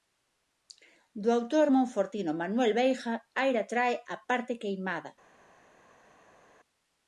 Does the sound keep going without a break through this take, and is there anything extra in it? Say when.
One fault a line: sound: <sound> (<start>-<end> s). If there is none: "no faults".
no faults